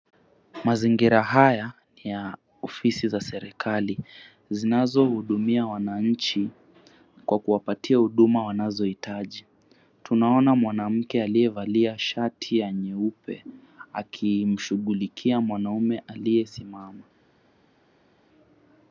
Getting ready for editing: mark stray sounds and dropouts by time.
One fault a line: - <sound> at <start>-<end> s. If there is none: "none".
none